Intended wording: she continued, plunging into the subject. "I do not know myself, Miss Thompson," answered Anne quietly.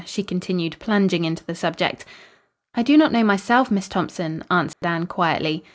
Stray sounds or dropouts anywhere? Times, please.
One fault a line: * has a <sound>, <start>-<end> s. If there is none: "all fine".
* has a dropout, 4.7-4.8 s